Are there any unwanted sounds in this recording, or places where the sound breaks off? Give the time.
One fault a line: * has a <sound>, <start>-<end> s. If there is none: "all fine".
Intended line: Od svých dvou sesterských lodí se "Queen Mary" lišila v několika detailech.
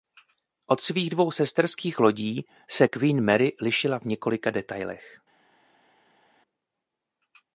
all fine